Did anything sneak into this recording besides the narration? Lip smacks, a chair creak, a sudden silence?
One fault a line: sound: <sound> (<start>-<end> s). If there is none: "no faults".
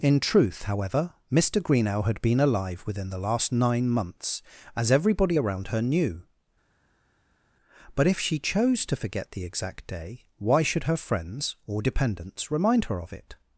no faults